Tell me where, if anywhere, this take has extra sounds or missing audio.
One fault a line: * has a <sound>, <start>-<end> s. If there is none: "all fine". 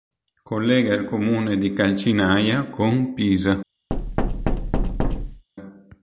* has a thud, 3.9-5.4 s